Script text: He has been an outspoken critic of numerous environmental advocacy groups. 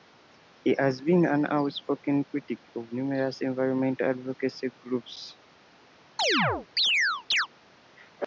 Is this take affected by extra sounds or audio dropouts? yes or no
yes